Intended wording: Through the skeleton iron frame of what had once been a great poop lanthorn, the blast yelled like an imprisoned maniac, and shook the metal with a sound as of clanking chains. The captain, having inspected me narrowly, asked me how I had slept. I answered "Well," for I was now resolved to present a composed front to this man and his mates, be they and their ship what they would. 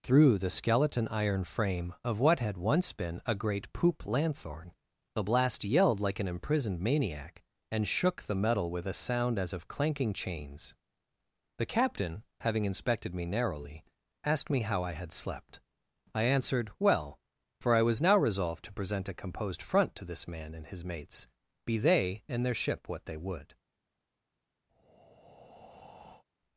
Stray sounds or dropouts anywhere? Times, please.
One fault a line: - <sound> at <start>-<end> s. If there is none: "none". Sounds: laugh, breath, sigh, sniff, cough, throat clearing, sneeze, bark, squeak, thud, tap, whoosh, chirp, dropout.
- breath at 24.7-26.2 s